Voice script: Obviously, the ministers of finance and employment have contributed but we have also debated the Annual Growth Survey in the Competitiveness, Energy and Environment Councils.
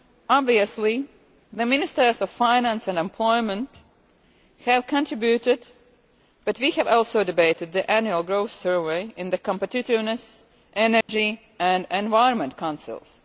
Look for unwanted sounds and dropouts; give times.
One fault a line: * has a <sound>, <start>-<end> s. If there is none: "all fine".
* has a dropout, 11.0-11.1 s